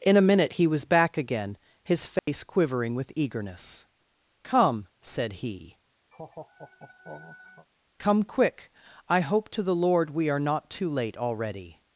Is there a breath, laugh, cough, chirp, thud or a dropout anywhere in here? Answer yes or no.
yes